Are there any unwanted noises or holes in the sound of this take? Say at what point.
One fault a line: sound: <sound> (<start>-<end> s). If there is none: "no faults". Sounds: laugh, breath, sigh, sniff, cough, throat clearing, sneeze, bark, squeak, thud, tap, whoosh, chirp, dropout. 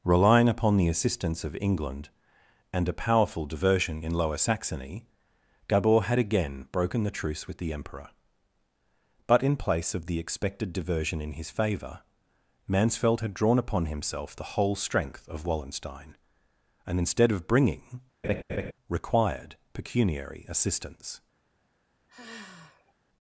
sound: laugh (18.2-18.7 s)
sound: sigh (22.1-22.9 s)